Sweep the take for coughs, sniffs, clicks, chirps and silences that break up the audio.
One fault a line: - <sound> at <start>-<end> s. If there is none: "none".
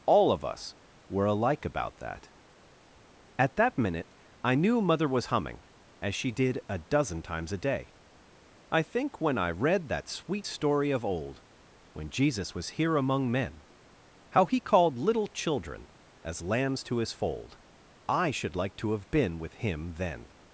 none